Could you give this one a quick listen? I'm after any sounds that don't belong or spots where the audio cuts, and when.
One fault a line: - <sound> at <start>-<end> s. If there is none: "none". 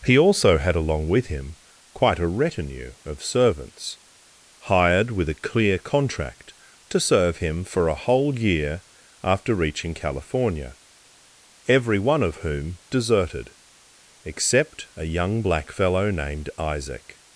none